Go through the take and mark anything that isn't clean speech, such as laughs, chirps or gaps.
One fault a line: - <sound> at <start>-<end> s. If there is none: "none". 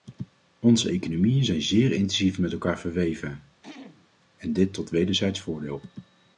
- throat clearing at 3.6-4.1 s